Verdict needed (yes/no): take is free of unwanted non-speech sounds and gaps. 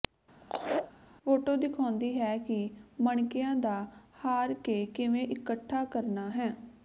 no